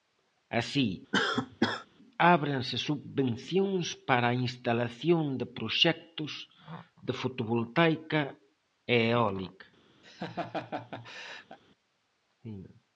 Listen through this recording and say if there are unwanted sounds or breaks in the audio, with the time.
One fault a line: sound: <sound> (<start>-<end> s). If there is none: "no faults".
sound: cough (1.1-1.9 s)
sound: laugh (10.0-11.6 s)